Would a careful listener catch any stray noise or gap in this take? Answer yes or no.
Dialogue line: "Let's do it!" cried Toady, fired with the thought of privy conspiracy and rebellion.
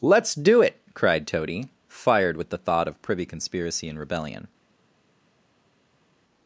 no